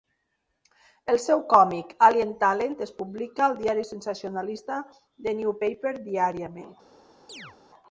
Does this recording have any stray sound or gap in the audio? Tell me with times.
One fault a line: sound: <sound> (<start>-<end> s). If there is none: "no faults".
sound: chirp (7.3-7.6 s)